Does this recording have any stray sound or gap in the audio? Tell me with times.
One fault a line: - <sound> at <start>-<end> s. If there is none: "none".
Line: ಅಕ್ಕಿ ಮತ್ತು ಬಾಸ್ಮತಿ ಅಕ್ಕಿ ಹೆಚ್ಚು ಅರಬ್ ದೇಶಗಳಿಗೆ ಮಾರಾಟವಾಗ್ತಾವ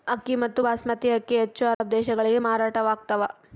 - dropout at 1.7-1.8 s